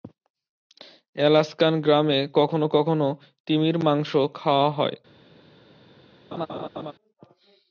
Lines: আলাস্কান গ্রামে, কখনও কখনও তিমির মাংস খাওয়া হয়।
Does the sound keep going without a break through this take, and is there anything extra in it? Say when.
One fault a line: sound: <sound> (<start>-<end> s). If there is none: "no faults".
sound: laugh (6.3-6.9 s)